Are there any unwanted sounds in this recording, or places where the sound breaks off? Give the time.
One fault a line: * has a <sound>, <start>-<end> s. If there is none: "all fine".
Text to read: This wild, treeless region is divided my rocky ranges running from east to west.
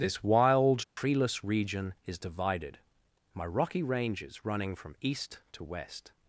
* has a dropout, 0.8-1.0 s